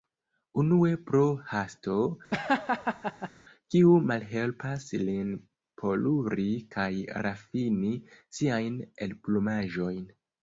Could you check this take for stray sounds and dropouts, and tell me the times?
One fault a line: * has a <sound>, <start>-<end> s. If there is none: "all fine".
* has a laugh, 2.3-3.3 s